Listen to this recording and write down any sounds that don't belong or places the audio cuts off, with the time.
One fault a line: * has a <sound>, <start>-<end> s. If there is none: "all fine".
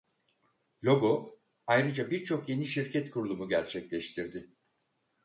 all fine